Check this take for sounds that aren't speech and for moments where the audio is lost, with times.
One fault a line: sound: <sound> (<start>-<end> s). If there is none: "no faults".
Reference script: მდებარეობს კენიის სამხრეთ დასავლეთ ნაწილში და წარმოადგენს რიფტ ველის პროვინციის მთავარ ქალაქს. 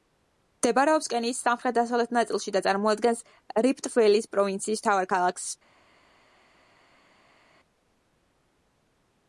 no faults